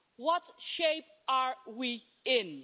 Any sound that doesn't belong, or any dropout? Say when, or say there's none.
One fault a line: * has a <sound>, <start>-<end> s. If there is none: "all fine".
all fine